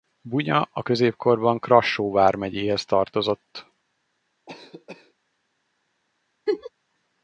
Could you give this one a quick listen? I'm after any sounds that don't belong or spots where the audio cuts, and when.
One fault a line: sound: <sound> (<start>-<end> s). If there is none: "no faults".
sound: cough (4.5-5.1 s)
sound: laugh (6.5-6.7 s)